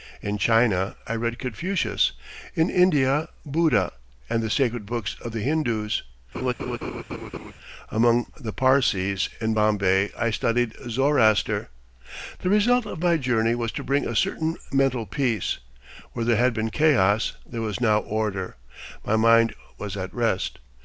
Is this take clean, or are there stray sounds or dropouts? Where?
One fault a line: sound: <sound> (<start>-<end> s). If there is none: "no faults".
sound: laugh (6.3-7.5 s)